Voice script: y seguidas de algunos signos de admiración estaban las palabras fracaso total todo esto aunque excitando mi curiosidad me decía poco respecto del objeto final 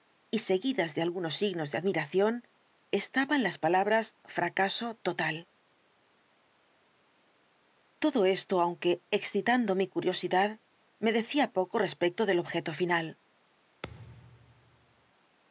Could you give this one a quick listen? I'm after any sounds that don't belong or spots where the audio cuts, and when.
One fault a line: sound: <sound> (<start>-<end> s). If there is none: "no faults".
sound: thud (13.8-15.1 s)